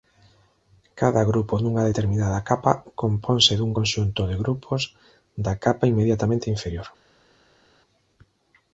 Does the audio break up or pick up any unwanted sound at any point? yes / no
no